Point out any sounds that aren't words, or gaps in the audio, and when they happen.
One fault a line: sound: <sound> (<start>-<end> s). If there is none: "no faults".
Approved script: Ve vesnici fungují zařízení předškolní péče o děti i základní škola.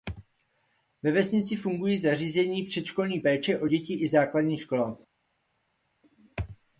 no faults